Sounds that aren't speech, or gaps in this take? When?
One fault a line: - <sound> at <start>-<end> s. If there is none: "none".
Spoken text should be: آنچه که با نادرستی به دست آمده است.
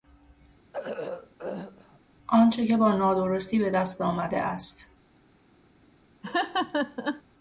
- throat clearing at 0.7-2.0 s
- laugh at 6.2-7.2 s